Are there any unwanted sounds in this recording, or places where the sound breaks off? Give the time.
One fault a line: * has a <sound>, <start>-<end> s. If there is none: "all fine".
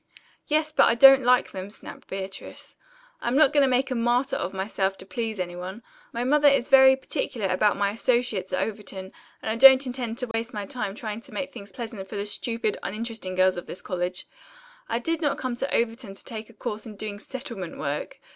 * has a dropout, 10.3-10.3 s